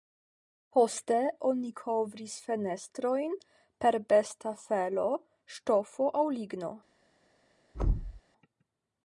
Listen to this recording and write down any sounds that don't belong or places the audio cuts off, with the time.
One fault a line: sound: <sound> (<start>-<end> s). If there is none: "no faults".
sound: thud (7.7-8.2 s)